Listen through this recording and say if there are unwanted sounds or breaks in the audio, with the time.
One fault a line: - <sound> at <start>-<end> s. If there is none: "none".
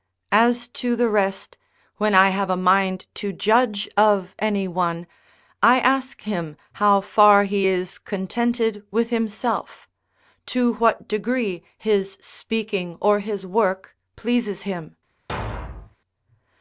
- thud at 15.3-16.0 s